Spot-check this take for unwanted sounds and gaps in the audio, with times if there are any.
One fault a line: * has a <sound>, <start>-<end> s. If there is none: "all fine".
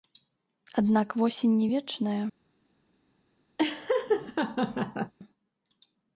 * has a laugh, 3.6-5.1 s